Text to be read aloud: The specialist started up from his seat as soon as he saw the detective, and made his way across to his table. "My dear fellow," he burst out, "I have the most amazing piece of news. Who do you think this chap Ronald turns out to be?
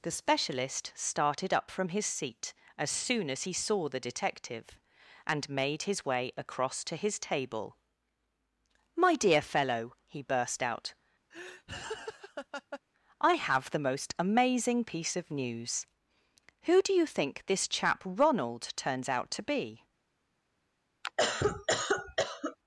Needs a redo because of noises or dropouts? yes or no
yes